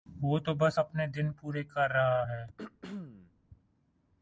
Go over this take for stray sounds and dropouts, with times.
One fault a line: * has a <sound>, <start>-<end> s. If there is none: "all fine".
* has a throat clearing, 2.6-3.3 s